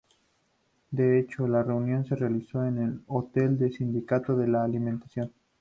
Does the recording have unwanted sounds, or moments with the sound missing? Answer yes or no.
no